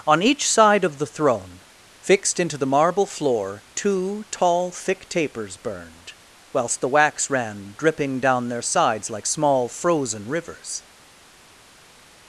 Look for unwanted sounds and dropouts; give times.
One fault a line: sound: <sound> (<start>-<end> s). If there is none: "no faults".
no faults